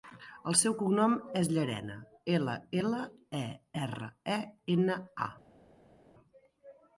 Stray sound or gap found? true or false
false